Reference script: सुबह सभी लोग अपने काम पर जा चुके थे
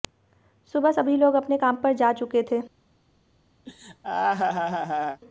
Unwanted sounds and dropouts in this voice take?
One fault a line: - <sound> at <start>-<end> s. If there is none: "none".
- laugh at 3.7-5.2 s